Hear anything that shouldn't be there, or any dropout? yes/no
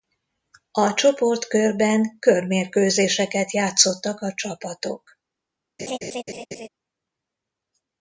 yes